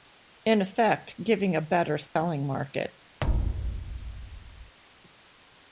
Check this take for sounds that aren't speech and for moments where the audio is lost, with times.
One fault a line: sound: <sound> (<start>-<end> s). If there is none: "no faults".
sound: dropout (2.1-2.2 s)
sound: thud (3.2-4.8 s)